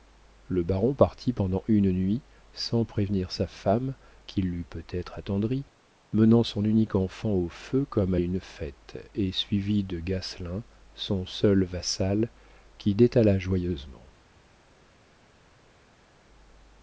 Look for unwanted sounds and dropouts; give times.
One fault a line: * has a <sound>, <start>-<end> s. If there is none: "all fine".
all fine